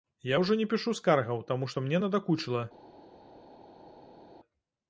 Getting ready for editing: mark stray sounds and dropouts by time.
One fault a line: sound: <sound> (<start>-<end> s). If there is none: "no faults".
no faults